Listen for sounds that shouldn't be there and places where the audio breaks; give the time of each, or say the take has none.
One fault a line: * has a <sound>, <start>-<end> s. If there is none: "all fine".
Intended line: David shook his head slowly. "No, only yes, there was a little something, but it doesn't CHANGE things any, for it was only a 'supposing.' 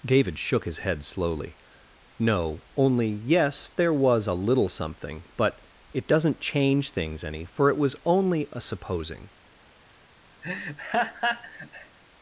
* has a laugh, 10.4-12.0 s